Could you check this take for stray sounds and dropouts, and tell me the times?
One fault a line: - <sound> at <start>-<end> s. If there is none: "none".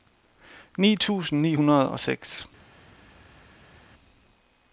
none